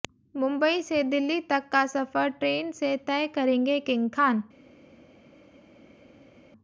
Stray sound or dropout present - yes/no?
no